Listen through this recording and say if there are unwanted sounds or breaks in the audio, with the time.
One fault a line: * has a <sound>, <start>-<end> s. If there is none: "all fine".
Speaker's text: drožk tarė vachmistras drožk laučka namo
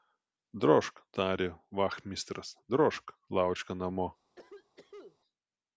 * has a cough, 4.4-5.2 s